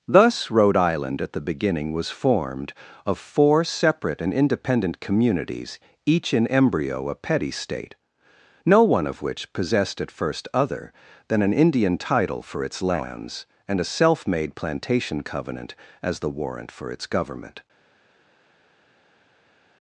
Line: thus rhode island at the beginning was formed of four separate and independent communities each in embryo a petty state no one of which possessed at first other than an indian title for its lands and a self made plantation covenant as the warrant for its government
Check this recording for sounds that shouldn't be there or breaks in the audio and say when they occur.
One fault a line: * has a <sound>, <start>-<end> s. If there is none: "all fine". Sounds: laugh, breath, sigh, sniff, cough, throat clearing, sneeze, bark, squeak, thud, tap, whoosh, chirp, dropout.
all fine